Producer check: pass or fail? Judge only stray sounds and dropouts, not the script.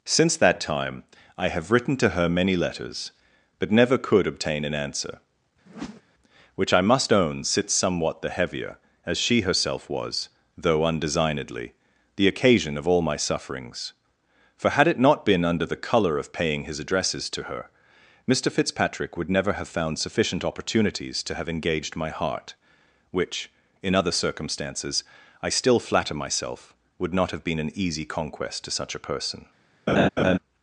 fail